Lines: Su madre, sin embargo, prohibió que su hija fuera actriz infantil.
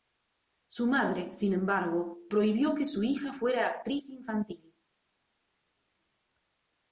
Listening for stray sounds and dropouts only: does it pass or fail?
pass